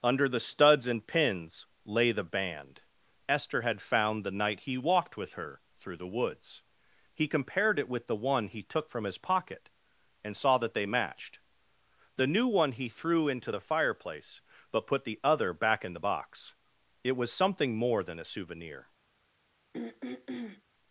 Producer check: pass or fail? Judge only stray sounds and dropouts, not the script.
fail